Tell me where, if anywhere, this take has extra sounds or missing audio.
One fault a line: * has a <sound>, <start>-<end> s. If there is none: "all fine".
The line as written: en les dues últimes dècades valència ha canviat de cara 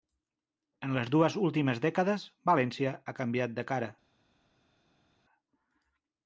all fine